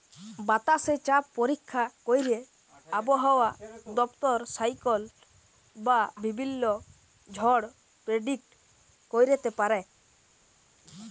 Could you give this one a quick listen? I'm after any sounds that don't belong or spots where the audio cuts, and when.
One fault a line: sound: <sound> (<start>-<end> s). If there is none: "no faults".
no faults